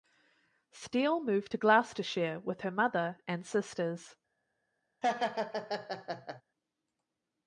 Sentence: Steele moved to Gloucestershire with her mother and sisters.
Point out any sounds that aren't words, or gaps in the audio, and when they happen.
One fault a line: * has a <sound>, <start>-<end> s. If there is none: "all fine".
* has a laugh, 5.0-6.4 s